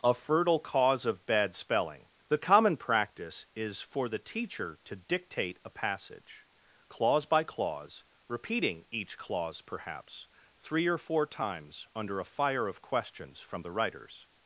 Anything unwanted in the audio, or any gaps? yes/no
no